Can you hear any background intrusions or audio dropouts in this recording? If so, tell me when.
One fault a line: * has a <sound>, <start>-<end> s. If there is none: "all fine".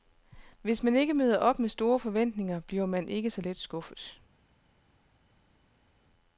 all fine